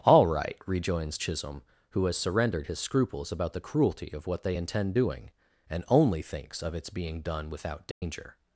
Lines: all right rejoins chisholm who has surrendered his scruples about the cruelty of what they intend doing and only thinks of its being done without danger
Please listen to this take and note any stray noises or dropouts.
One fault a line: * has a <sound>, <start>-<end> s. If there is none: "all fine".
* has a dropout, 7.9-8.0 s